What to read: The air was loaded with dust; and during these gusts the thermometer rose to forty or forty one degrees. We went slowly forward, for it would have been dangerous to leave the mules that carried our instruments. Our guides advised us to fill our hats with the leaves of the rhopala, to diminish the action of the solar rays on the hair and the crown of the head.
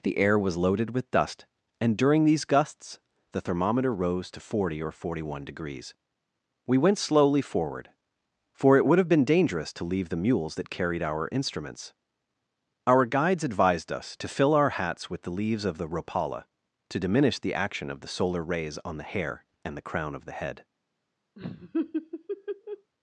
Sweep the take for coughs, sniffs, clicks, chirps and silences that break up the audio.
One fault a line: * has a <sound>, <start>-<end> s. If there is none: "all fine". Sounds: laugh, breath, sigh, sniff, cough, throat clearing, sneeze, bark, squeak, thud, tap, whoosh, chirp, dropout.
* has a laugh, 21.4-22.9 s